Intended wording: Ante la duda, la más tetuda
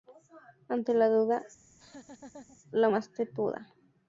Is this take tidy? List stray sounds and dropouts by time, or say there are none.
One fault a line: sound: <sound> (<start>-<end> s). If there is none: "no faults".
sound: laugh (1.6-2.6 s)